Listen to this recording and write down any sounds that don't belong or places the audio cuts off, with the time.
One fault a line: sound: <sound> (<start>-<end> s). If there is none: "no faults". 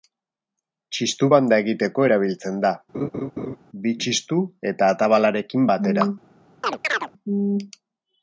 sound: laugh (2.9-3.6 s)
sound: chirp (6.6-7.1 s)